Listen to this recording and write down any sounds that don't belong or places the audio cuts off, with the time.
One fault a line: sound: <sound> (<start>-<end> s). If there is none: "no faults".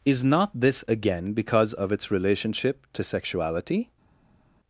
no faults